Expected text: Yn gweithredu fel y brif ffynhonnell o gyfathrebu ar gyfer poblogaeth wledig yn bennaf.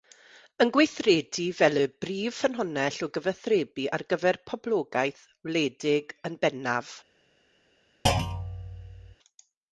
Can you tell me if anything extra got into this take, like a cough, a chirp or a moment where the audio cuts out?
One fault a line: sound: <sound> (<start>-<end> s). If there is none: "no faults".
sound: thud (8.1-9.2 s)